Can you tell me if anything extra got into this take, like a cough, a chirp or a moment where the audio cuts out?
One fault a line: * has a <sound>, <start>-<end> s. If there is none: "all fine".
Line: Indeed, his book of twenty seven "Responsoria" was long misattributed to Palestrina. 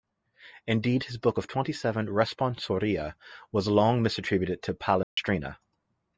* has a dropout, 5.0-5.2 s